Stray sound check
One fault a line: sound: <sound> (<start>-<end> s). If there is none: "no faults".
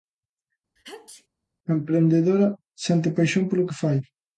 sound: sneeze (0.8-1.3 s)